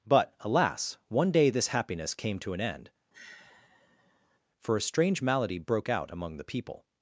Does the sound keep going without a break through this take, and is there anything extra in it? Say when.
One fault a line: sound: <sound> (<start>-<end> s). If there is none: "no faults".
sound: sigh (3.1-4.4 s)